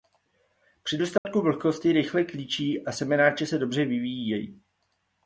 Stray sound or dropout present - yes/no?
yes